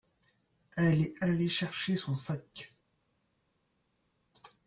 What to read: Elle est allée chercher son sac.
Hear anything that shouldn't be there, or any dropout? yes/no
no